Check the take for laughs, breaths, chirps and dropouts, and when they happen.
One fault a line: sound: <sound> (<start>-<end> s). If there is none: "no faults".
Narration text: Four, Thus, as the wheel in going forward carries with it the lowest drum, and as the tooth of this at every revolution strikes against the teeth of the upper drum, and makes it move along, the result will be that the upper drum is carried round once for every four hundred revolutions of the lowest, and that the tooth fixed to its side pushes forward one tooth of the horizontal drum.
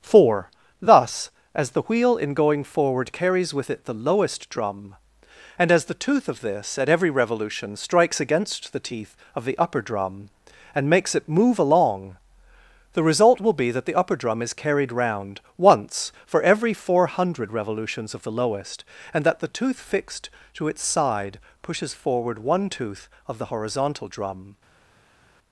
no faults